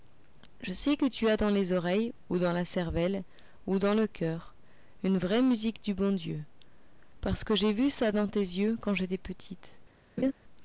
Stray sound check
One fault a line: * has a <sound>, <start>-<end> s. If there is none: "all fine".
* has a laugh, 10.2-10.3 s